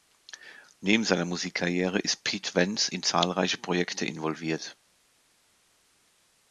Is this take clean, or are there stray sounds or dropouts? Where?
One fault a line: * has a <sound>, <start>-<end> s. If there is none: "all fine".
all fine